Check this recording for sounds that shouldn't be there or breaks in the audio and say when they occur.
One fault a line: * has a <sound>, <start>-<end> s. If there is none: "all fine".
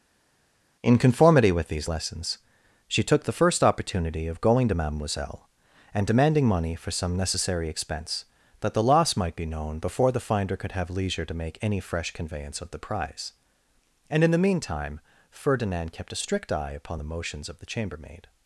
all fine